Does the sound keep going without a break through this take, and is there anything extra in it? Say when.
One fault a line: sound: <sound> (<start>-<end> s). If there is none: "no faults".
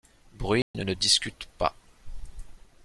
sound: dropout (0.6-0.7 s)